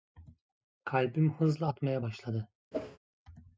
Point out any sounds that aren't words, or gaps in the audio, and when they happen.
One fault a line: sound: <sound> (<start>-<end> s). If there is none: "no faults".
sound: whoosh (2.7-3.0 s)